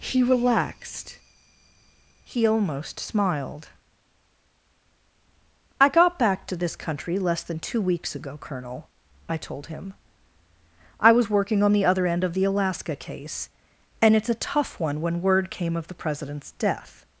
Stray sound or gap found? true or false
false